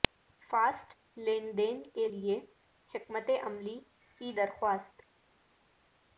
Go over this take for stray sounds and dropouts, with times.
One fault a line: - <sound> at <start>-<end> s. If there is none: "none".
none